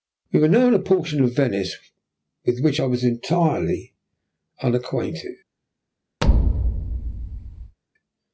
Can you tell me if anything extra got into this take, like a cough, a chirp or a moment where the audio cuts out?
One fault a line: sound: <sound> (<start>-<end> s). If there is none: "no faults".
sound: thud (6.2-7.8 s)